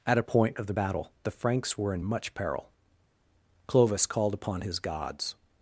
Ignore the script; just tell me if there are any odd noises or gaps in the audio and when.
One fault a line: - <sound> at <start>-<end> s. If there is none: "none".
none